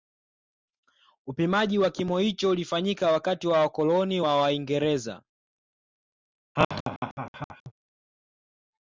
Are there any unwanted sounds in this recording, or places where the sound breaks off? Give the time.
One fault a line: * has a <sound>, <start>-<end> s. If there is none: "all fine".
* has a laugh, 6.6-7.7 s